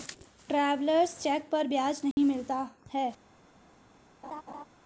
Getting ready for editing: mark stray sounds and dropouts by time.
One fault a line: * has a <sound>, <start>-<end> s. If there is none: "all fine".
* has a dropout, 2.1-2.2 s
* has a laugh, 4.2-4.6 s